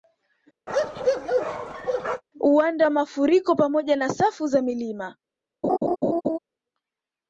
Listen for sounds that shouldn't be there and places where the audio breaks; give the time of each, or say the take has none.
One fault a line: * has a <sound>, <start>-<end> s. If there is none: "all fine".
* has a bark, 0.7-2.2 s
* has a laugh, 5.6-6.4 s